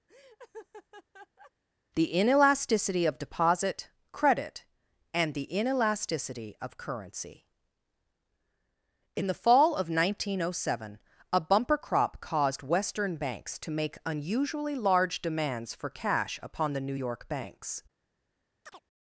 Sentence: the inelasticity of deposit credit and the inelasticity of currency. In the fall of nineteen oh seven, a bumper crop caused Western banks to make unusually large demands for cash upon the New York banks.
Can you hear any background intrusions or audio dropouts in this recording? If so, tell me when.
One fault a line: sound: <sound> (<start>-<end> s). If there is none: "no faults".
sound: laugh (0.1-1.5 s)
sound: chirp (18.7-18.8 s)